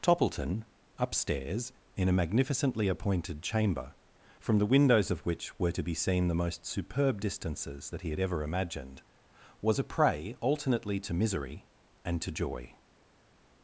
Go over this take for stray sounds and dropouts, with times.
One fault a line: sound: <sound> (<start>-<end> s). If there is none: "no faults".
no faults